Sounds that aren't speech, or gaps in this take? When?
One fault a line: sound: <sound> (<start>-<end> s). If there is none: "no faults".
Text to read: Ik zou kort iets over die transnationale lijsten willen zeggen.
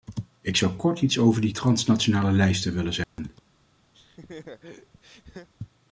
sound: dropout (3.0-3.2 s)
sound: laugh (3.9-5.5 s)